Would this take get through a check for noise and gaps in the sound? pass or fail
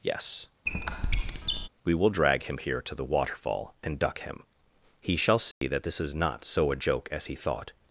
fail